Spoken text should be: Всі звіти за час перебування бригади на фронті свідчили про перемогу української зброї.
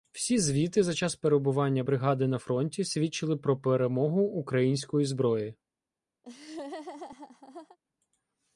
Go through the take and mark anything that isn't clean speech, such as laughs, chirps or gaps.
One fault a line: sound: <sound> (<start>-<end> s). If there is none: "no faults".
sound: laugh (6.2-7.8 s)